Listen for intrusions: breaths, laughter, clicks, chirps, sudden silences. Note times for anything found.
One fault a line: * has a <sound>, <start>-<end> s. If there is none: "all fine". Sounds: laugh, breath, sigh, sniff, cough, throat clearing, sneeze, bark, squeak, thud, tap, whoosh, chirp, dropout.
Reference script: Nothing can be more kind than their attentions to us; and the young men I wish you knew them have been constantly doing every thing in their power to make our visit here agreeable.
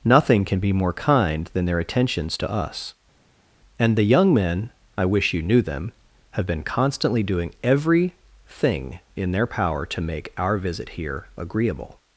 all fine